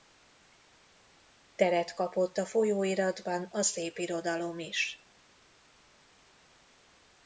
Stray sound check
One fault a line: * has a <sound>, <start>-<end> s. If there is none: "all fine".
all fine